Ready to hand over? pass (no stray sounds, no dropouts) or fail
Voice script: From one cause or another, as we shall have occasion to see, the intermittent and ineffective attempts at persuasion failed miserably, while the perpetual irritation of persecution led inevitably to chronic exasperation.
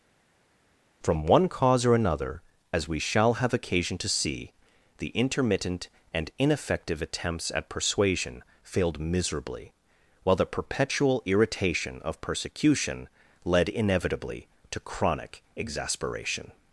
pass